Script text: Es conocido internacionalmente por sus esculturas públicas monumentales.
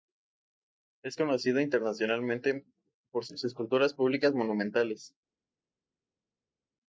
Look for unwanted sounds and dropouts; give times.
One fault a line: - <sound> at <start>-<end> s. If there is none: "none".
none